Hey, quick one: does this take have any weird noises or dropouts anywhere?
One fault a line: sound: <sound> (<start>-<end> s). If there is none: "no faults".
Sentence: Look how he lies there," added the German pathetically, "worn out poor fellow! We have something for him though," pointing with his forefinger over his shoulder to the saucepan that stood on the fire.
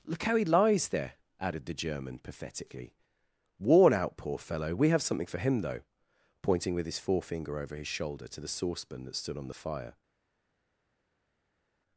no faults